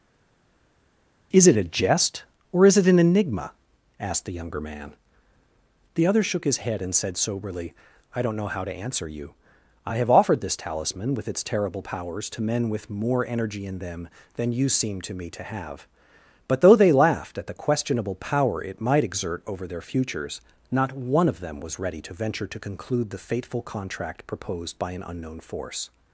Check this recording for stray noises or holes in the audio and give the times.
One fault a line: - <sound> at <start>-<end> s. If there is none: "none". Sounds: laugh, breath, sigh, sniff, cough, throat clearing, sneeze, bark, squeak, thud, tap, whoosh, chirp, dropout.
none